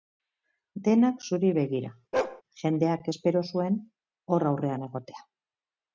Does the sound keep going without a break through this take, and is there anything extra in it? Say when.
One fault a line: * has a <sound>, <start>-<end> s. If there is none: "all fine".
* has a bark, 2.1-2.4 s